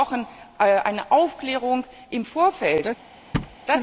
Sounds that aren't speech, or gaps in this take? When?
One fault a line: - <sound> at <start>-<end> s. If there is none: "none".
- thud at 3.3-3.6 s